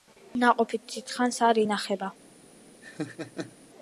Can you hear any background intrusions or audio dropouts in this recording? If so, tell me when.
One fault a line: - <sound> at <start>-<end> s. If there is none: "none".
- laugh at 2.8-3.6 s